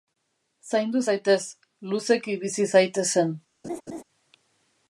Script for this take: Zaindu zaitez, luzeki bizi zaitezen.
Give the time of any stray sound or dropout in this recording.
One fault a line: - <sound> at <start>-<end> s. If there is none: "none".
- laugh at 3.6-4.0 s